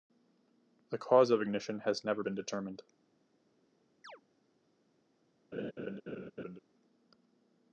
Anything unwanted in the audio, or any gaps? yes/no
yes